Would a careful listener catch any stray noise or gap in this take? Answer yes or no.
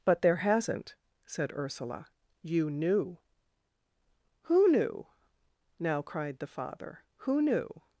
no